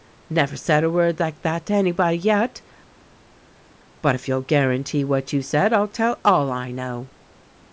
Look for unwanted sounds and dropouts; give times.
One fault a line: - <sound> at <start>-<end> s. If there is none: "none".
none